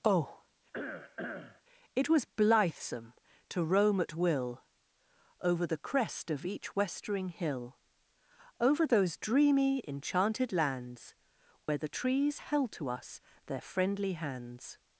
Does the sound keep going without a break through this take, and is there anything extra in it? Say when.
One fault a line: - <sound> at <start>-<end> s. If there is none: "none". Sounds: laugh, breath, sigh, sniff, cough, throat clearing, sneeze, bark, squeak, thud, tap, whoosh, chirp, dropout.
- cough at 0.7-1.6 s
- dropout at 11.6-11.7 s